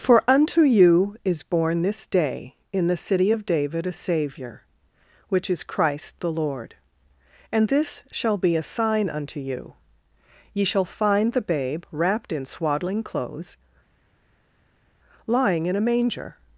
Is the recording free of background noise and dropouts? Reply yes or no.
yes